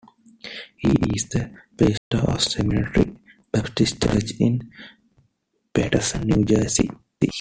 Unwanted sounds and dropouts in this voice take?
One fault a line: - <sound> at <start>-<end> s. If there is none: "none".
- dropout at 2.0-2.1 s